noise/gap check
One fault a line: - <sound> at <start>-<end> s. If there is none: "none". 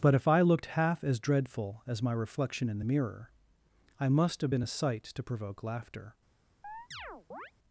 - chirp at 6.6-7.5 s